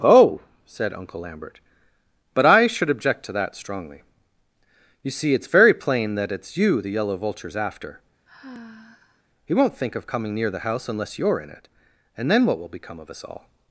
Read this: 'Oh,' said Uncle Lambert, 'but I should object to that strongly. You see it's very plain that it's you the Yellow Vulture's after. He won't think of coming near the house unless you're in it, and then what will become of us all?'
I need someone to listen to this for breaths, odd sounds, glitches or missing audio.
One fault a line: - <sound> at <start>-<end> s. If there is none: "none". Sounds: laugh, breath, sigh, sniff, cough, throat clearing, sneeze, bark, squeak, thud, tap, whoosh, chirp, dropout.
- sigh at 8.3-9.2 s